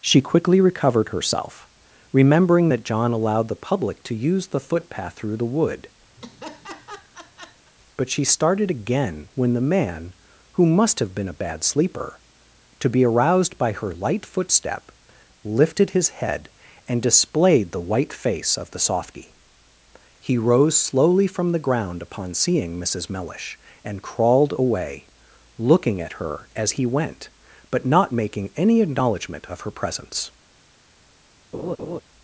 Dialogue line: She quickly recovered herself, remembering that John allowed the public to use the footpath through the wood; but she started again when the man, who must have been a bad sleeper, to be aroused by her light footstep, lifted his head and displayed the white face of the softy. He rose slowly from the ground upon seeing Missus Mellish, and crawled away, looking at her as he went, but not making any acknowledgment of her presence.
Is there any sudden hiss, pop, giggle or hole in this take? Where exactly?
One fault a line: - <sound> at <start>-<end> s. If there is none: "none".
- laugh at 6.2-7.7 s
- laugh at 31.5-32.0 s